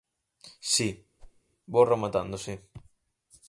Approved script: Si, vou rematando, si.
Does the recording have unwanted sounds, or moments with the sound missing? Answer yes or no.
yes